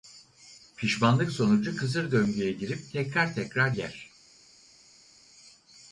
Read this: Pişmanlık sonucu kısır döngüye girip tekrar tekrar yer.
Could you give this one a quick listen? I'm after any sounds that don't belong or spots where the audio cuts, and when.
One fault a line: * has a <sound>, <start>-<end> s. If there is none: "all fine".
all fine